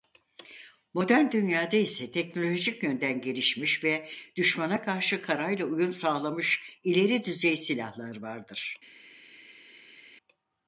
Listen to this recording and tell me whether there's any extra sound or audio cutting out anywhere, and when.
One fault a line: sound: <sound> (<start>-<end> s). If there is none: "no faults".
no faults